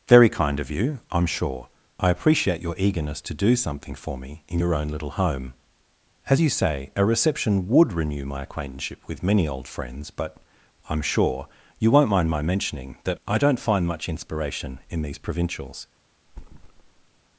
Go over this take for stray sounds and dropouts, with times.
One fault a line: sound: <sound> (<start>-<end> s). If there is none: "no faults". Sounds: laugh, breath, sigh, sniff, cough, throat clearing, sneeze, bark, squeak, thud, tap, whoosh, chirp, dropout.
sound: thud (16.3-17.2 s)